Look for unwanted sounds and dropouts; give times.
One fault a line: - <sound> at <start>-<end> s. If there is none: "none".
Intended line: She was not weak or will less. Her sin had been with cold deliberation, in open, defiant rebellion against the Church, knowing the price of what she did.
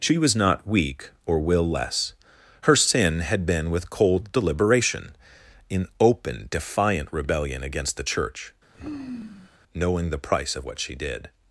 - sigh at 8.7-9.6 s